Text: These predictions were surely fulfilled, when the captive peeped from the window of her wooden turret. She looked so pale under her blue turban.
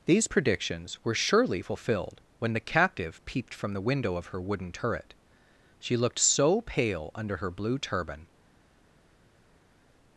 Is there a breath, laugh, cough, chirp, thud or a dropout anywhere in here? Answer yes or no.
no